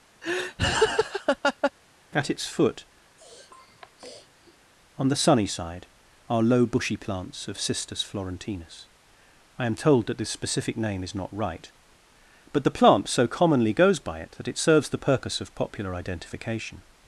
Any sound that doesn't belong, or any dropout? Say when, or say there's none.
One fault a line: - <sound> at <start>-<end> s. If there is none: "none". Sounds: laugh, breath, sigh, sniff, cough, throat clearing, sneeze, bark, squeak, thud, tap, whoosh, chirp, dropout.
- laugh at 0.2-1.7 s
- sniff at 3.2-4.6 s